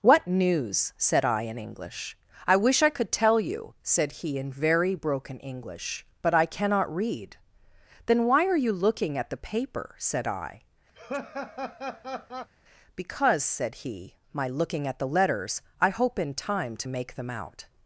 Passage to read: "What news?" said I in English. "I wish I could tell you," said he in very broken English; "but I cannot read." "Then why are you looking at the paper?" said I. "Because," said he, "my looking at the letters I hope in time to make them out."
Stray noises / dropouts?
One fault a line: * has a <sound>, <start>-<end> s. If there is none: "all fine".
* has a laugh, 10.9-12.5 s